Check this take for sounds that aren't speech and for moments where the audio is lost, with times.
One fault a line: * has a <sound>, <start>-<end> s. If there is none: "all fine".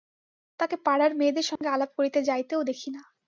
* has a dropout, 1.6-1.6 s